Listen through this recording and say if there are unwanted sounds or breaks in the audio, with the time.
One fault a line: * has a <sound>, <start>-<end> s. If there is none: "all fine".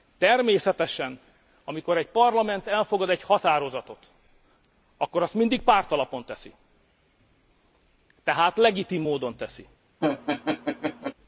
* has a laugh, 10.0-11.1 s